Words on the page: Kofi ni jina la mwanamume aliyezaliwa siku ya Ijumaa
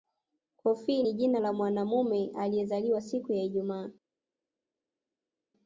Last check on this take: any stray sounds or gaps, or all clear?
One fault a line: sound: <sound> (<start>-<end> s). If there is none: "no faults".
no faults